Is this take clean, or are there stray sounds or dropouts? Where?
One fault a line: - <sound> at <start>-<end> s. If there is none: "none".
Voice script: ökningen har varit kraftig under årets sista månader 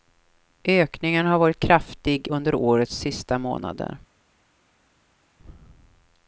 none